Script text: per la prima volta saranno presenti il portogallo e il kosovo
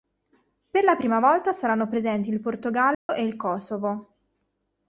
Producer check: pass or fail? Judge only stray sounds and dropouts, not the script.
fail